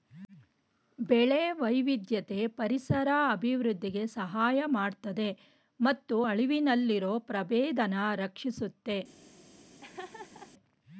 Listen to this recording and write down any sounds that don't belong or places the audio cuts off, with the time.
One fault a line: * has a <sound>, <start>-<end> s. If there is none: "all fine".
* has a laugh, 9.8-10.5 s